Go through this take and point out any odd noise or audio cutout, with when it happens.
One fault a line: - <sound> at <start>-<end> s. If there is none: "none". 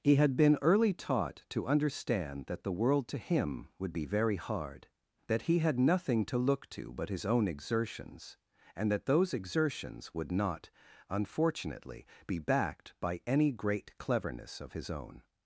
none